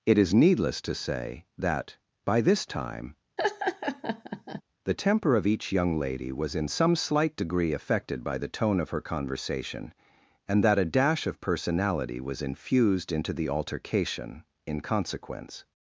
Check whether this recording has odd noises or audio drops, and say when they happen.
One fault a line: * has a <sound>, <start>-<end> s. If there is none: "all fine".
* has a laugh, 3.4-4.6 s